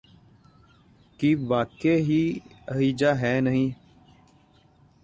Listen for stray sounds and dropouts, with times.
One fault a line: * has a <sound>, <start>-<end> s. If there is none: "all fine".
all fine